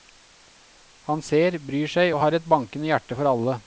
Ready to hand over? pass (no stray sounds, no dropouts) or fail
pass